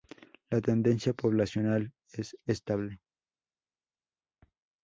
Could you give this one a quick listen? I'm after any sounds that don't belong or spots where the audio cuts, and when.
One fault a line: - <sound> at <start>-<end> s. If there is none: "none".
none